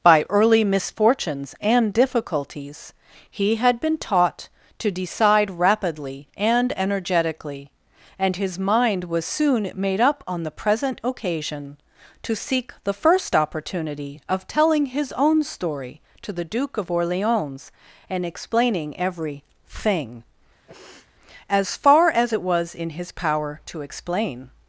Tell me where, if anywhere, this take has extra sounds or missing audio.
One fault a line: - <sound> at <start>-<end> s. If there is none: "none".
- sniff at 20.7-21.1 s